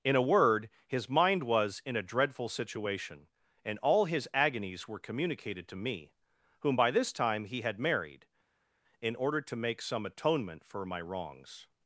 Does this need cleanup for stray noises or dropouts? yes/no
no